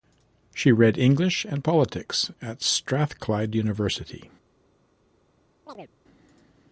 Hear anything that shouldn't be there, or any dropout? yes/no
yes